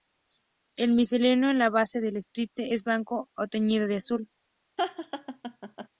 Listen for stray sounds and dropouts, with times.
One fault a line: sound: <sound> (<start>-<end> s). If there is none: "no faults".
sound: laugh (4.8-5.9 s)